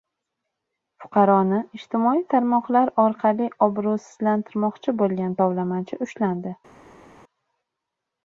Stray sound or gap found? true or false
false